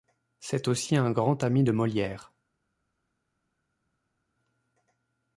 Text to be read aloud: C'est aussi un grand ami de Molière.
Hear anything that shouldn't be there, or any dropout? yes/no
no